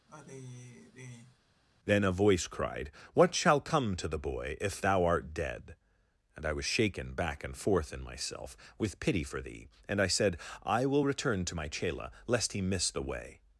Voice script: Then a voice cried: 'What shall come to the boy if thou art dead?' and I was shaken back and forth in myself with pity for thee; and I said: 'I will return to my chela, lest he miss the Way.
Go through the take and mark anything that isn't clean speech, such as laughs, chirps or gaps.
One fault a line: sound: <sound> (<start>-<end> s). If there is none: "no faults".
sound: sigh (0.1-1.4 s)